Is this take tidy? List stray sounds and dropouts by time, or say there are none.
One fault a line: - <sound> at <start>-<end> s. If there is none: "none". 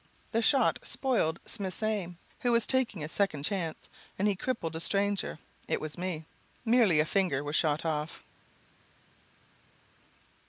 none